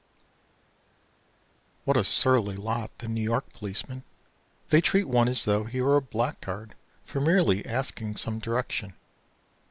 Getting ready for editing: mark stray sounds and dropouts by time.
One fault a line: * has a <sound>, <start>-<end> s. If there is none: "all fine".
all fine